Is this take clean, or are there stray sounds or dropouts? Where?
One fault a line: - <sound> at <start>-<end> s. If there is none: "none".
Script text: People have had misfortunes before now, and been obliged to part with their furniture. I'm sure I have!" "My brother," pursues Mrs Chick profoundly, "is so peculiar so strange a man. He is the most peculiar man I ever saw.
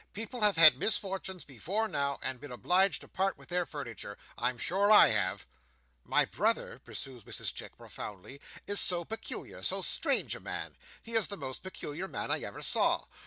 none